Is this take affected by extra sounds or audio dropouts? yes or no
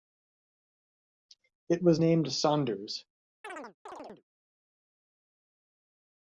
yes